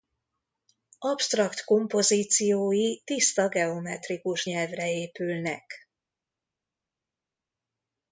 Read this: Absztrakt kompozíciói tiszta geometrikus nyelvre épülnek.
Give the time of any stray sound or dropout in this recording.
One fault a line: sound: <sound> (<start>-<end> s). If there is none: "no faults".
no faults